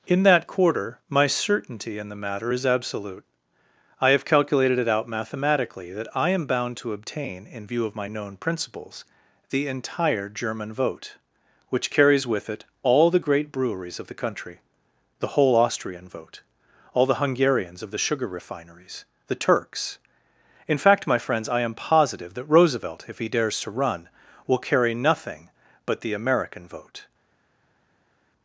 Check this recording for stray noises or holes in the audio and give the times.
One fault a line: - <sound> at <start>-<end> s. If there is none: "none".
none